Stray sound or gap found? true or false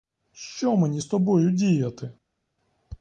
false